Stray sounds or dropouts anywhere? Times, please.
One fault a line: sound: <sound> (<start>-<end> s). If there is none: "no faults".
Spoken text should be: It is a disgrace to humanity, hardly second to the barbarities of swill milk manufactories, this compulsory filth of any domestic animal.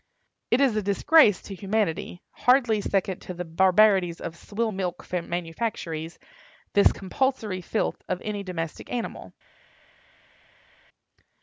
no faults